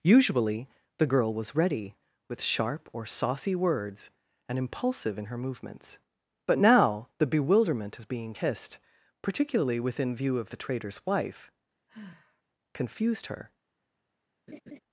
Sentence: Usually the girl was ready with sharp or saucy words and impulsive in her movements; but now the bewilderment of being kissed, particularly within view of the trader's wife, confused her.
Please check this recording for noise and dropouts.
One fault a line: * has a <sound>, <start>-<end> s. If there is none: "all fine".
* has a sigh, 11.9-12.4 s
* has a laugh, 14.5-14.8 s